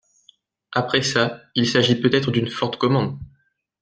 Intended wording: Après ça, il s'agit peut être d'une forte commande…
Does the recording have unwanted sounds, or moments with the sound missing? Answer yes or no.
no